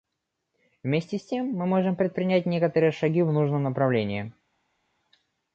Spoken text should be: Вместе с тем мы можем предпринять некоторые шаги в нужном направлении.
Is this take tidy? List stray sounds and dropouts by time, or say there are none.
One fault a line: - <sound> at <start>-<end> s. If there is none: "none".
none